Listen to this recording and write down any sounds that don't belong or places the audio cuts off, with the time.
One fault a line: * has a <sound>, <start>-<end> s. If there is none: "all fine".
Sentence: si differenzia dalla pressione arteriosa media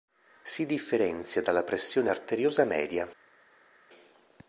all fine